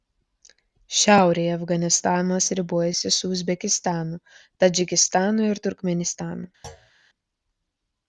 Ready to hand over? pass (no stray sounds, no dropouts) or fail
fail